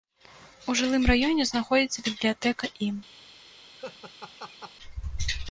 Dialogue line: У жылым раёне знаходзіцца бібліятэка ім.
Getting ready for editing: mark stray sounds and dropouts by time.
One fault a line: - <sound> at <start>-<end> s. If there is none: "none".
- laugh at 3.8-4.7 s